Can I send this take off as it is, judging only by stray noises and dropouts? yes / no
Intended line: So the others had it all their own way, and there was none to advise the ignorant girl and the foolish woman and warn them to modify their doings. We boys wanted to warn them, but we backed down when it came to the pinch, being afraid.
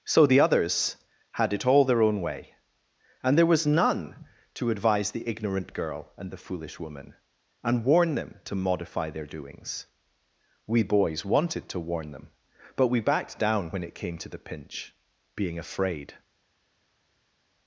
yes